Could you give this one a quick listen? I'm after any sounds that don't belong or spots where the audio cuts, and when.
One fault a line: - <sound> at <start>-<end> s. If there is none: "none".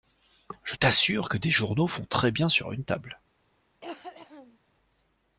- cough at 3.8-4.6 s